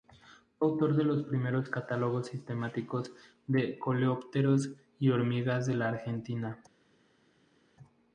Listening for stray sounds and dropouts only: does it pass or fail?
pass